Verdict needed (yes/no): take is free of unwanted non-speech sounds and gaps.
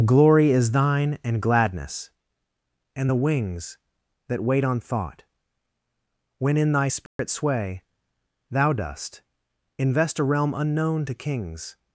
no